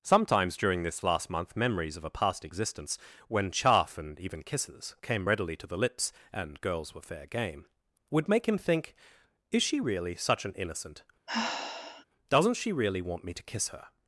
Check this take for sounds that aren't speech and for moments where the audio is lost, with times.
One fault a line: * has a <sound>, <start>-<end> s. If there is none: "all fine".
* has a sigh, 11.3-12.0 s